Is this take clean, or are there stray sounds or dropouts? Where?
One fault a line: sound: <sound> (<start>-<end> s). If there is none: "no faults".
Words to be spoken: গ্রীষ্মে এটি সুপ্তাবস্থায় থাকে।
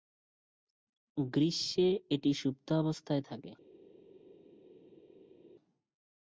no faults